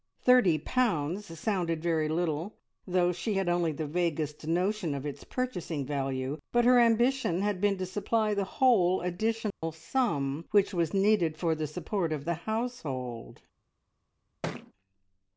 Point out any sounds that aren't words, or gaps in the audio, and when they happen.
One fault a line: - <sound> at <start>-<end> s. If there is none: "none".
- dropout at 9.5-9.6 s
- thud at 14.4-14.7 s